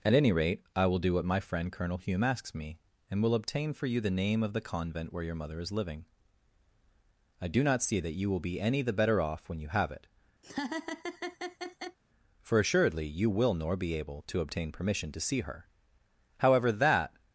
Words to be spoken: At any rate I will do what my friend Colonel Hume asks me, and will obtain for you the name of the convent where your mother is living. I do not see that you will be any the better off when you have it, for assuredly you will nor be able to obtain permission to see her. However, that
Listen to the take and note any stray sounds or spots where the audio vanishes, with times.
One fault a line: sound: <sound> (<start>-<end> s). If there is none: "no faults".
sound: laugh (10.4-12.0 s)